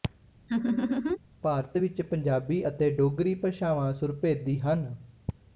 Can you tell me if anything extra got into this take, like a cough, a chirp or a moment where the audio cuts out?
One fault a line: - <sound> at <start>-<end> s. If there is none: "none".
- laugh at 0.5-1.2 s